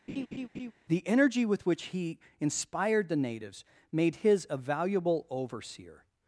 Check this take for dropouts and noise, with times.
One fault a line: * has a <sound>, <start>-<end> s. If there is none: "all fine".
* has a laugh, 0.1-0.7 s